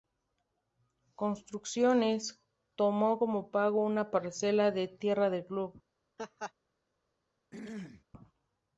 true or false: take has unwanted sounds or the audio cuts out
true